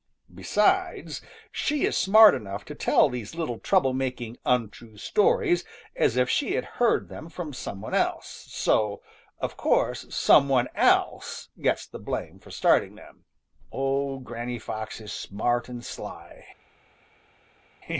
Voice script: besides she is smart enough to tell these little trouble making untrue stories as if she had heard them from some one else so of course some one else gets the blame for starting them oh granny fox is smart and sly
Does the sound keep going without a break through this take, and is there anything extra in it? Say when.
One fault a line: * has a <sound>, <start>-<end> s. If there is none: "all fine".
all fine